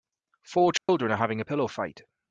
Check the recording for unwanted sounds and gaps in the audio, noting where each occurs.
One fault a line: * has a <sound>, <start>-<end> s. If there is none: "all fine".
* has a dropout, 0.8-0.9 s